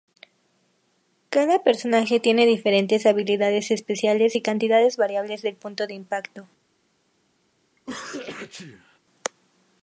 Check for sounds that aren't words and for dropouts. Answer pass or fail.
fail